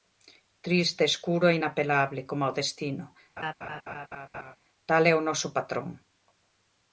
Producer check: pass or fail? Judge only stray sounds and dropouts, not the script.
fail